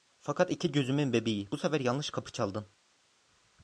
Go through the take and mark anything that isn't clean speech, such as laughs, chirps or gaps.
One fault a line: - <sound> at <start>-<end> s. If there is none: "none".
none